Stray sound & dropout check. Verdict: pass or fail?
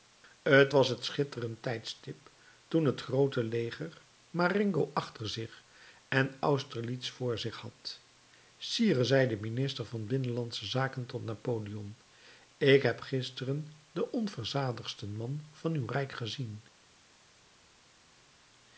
pass